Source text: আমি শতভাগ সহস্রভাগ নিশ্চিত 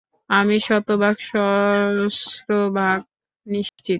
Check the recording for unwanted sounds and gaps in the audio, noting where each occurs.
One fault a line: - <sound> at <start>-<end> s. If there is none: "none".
- dropout at 3.7-3.8 s